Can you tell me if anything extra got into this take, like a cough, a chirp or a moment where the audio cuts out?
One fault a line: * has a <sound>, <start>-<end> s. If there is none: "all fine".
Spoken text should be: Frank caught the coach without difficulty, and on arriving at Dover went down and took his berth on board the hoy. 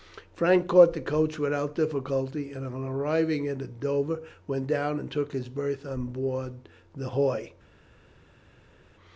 all fine